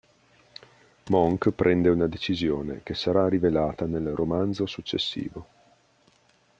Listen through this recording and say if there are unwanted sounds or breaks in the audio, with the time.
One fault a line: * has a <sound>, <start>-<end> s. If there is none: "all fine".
all fine